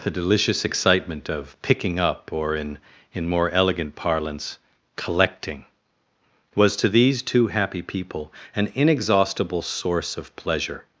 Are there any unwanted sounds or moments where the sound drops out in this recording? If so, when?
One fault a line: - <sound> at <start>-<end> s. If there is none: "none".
none